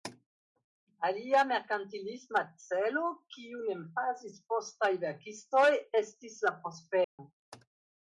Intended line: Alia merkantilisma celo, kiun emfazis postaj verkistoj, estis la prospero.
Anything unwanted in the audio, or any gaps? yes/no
yes